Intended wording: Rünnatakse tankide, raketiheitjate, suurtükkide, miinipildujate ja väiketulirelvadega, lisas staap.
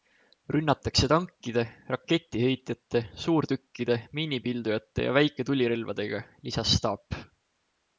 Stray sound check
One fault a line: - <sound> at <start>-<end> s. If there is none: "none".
none